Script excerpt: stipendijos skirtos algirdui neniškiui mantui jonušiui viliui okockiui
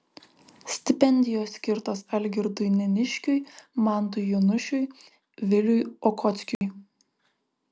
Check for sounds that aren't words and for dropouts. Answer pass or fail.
fail